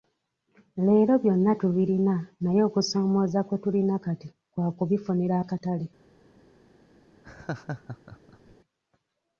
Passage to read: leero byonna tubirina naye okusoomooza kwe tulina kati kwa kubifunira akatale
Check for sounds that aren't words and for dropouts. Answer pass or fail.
fail